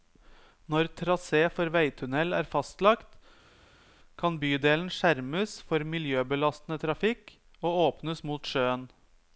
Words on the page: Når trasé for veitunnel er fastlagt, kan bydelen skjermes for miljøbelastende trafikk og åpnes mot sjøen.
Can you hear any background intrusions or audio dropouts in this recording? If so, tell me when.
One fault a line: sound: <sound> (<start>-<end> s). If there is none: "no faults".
no faults